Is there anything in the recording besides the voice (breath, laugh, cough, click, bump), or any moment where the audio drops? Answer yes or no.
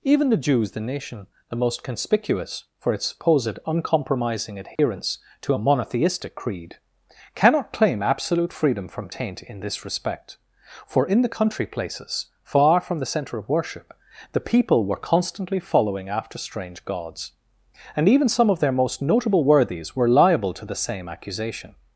yes